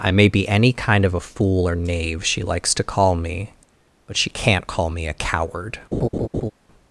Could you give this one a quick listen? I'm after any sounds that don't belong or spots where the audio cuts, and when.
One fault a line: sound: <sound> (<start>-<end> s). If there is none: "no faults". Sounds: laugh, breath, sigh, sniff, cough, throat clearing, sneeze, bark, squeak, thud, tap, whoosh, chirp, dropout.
sound: laugh (5.9-6.5 s)